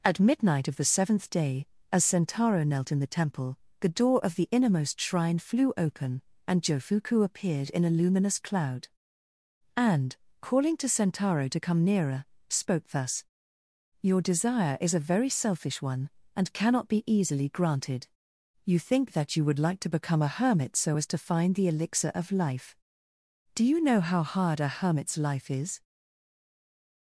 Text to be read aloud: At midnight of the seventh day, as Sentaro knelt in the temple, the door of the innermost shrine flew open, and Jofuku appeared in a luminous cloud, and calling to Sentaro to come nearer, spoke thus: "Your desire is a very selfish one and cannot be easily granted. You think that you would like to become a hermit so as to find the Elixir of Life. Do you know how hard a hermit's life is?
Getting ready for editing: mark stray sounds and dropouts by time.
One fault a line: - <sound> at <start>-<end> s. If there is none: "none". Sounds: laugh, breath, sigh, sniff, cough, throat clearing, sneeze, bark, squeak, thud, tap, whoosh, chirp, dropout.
none